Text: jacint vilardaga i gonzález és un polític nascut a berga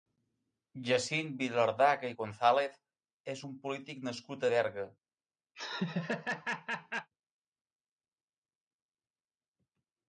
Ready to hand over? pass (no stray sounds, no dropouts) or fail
fail